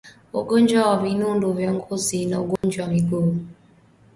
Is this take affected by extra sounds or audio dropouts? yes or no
yes